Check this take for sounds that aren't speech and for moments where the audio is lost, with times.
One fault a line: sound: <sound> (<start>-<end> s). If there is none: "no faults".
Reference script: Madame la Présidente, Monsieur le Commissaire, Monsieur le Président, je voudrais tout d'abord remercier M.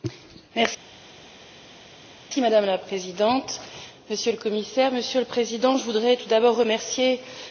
no faults